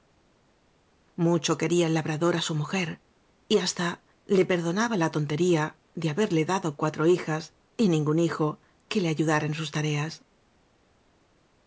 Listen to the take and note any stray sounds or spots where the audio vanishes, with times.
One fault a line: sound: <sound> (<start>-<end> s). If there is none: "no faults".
no faults